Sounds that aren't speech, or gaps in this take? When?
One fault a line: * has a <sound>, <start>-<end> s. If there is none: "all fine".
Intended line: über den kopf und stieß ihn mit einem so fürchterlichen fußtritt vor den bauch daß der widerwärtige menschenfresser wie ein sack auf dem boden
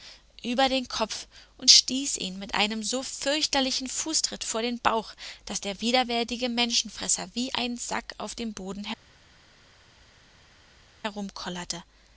all fine